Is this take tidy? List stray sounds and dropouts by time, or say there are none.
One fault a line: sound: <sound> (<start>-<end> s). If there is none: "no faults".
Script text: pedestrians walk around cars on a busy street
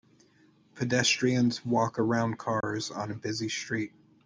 sound: dropout (2.6-2.6 s)